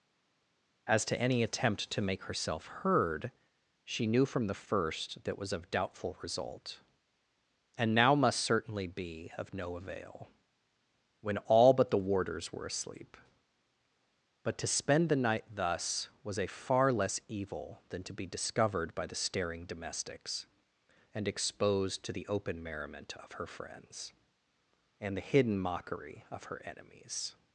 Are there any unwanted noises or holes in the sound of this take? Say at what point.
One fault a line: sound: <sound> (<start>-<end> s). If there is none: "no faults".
no faults